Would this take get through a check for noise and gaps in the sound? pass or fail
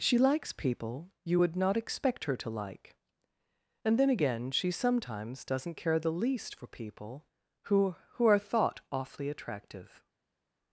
pass